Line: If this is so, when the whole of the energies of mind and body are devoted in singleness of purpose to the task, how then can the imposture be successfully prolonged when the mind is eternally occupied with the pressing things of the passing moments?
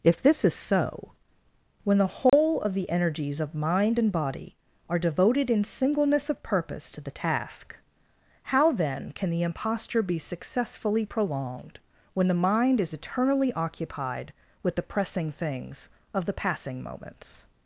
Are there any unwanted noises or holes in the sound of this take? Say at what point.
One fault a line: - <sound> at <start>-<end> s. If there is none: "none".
- dropout at 2.3-2.3 s